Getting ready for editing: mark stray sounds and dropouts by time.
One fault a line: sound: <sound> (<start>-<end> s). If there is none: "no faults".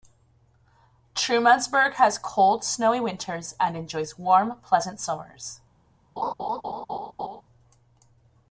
sound: laugh (6.2-7.4 s)